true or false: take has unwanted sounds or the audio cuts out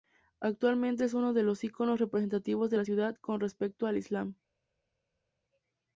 false